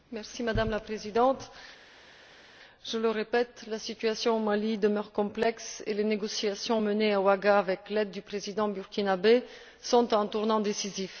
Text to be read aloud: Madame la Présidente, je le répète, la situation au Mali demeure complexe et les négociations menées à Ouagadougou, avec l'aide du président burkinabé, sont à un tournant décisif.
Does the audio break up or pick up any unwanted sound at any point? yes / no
no